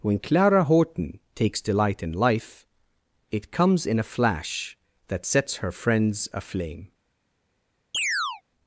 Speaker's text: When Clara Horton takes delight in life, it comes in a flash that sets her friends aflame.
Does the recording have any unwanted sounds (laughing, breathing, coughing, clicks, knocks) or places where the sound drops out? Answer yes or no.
yes